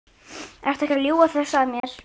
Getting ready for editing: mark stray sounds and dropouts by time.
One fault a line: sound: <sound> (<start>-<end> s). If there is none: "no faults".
sound: dropout (1.8-1.8 s)